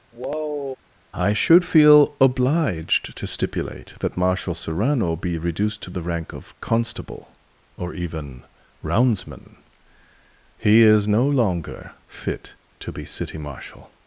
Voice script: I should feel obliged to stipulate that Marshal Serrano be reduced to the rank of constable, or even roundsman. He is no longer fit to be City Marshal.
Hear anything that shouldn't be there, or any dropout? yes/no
yes